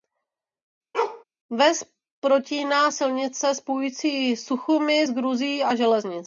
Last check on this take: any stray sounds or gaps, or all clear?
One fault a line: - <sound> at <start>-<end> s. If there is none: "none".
- bark at 0.9-1.2 s